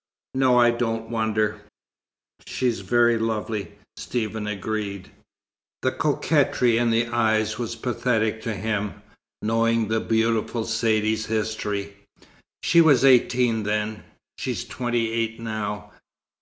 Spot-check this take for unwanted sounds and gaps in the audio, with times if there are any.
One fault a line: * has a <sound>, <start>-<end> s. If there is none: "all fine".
all fine